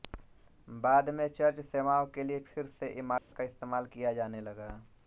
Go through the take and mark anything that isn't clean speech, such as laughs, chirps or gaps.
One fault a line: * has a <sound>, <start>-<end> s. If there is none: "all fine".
* has a dropout, 3.2-3.3 s